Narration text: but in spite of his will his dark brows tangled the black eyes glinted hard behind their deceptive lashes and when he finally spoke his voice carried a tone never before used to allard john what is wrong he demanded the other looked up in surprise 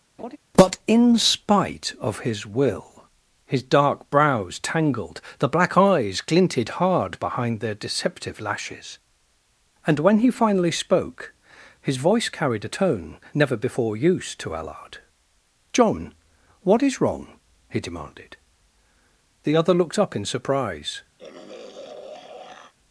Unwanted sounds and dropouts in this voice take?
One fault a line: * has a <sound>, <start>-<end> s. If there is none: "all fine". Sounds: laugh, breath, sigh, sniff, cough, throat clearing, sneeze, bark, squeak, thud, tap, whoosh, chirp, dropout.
* has a laugh, 0.2-0.4 s
* has a throat clearing, 21.2-22.7 s